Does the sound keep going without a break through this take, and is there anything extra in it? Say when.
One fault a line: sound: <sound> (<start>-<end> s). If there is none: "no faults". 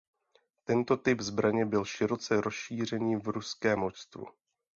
no faults